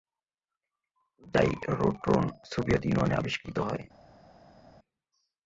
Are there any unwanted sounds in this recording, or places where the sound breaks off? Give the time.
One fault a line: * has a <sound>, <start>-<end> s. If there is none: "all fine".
all fine